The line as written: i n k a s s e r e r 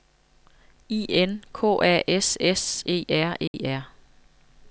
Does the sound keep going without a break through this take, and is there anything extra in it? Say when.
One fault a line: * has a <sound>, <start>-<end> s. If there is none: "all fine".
* has a dropout, 3.5-3.5 s